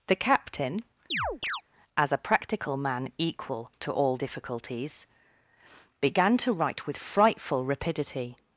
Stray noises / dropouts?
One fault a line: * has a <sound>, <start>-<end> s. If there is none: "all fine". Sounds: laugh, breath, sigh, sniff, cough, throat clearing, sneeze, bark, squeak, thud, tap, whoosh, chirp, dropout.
* has a chirp, 1.1-1.6 s